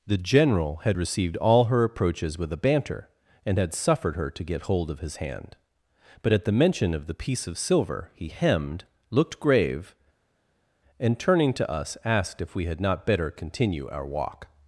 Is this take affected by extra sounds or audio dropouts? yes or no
no